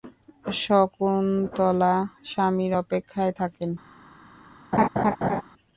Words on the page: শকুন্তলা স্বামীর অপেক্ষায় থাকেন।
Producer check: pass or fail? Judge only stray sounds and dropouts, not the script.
fail